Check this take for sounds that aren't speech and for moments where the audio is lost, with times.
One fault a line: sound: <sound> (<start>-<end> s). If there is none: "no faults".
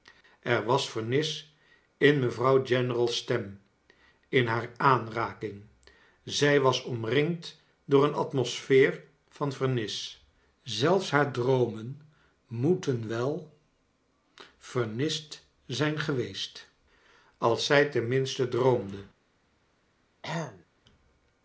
sound: throat clearing (20.2-20.7 s)